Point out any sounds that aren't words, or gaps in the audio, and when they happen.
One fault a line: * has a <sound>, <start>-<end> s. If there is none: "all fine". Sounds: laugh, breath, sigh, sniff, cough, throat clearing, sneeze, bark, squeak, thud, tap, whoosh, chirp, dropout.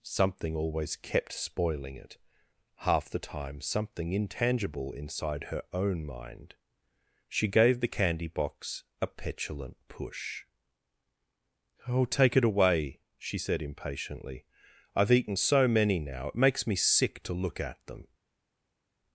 all fine